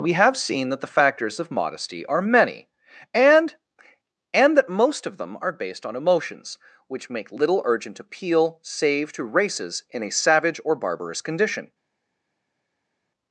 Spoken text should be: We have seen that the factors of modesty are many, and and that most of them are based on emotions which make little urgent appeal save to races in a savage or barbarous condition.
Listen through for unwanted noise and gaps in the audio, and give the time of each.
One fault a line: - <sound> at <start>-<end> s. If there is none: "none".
none